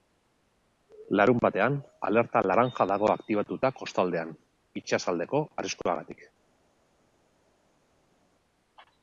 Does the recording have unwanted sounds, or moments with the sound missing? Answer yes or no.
no